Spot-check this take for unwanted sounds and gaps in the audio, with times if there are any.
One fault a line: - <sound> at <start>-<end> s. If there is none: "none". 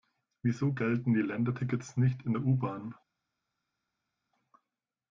none